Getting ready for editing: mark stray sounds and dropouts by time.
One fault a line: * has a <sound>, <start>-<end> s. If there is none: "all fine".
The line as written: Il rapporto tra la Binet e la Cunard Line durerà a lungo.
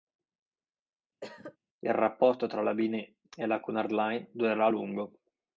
* has a cough, 1.2-1.6 s